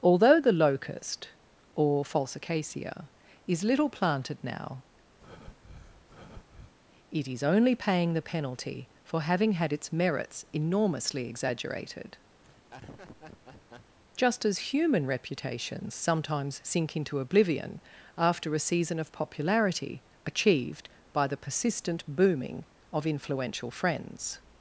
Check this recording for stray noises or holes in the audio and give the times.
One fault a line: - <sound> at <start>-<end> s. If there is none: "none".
- breath at 5.2-6.7 s
- laugh at 12.4-14.0 s